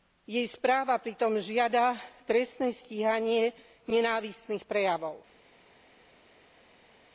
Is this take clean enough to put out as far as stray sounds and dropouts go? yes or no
yes